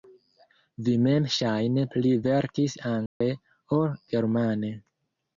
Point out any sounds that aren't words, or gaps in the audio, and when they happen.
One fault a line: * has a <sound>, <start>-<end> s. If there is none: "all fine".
* has a dropout, 3.1-3.2 s